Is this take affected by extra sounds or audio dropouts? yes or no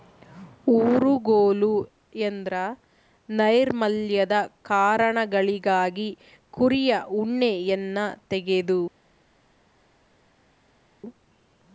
no